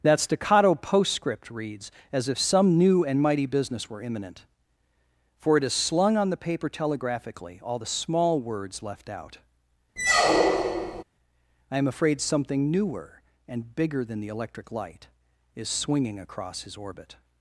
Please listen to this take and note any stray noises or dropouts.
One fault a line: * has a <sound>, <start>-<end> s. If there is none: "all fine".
* has a squeak, 10.0-11.0 s